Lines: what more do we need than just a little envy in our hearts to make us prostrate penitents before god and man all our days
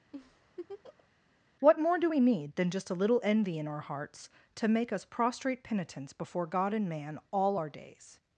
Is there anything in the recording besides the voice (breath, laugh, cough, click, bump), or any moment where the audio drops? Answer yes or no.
yes